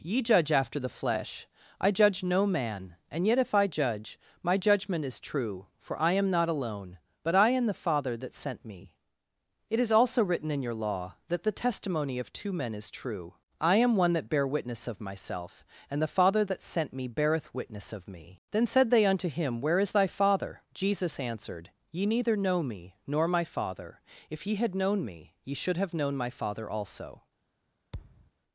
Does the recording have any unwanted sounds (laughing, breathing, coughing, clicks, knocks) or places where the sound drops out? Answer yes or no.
yes